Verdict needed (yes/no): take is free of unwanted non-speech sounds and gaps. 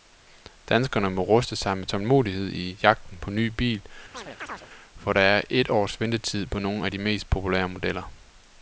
no